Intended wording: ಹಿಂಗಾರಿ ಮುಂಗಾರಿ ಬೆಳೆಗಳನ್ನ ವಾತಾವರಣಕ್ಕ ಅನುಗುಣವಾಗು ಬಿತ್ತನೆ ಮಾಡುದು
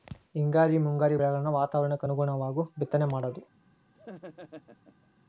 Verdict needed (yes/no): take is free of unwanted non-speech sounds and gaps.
no